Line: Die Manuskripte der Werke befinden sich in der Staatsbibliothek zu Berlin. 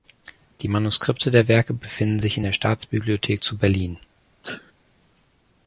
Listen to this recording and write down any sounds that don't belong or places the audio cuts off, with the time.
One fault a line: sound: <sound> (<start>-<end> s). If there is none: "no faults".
sound: sneeze (4.4-4.7 s)